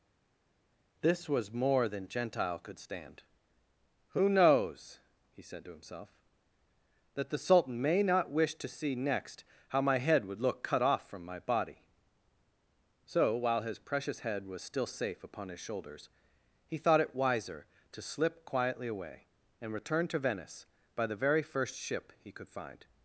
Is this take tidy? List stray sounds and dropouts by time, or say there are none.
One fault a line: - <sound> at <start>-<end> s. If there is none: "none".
none